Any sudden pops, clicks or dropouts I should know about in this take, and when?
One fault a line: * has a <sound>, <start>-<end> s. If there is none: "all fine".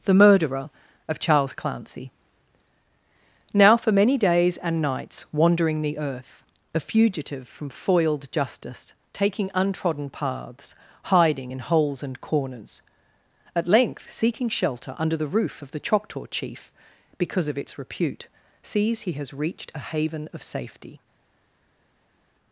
all fine